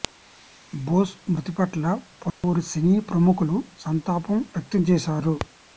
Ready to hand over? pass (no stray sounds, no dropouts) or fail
fail